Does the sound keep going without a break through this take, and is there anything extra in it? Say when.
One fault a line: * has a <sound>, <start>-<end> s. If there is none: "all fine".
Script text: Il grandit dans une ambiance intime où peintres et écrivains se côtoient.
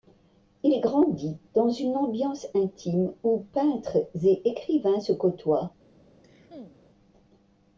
* has a cough, 6.2-6.8 s